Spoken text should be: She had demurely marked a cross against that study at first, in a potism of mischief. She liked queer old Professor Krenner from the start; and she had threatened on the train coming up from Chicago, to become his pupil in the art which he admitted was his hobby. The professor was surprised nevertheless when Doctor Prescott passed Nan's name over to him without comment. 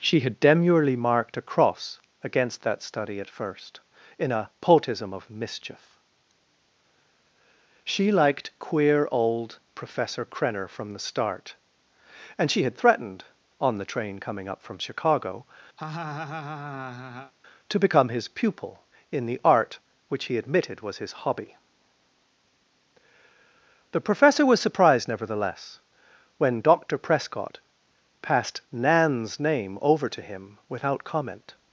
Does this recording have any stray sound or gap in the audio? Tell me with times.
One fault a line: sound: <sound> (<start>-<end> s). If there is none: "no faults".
sound: laugh (15.8-17.3 s)